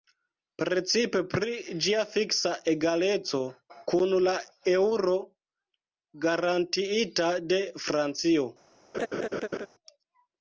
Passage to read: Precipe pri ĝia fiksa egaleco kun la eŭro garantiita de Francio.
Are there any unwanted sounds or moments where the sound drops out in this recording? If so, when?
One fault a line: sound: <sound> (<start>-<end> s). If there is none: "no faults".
sound: laugh (8.9-9.7 s)